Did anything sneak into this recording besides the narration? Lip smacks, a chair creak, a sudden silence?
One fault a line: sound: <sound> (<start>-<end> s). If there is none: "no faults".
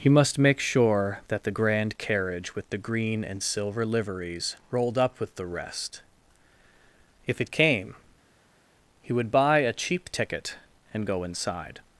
no faults